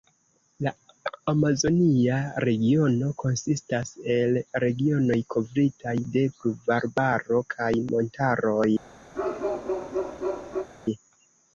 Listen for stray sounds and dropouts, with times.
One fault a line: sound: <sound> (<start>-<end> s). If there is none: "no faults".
sound: bark (9.1-10.7 s)